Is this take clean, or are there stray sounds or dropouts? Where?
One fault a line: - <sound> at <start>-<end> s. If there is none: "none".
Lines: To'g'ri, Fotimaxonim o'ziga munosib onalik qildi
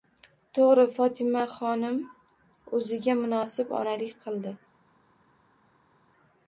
none